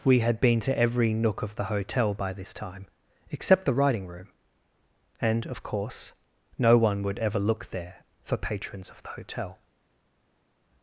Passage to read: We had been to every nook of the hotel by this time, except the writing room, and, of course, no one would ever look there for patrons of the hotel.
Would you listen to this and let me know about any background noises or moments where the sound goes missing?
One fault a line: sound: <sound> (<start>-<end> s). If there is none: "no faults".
no faults